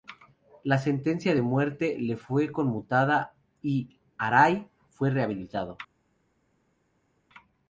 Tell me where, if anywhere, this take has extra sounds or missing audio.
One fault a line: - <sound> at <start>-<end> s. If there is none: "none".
none